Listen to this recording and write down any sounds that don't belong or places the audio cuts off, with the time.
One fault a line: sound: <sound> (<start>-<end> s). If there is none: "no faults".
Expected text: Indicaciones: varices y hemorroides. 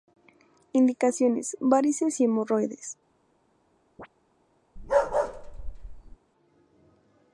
sound: chirp (4.0-4.1 s)
sound: bark (4.8-6.2 s)